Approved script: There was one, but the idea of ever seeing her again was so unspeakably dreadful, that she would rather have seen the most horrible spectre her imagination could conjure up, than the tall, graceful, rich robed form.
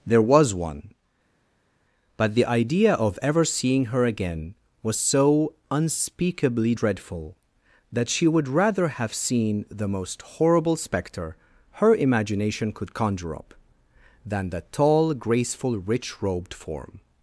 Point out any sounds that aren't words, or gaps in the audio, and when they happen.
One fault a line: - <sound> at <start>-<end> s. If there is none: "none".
none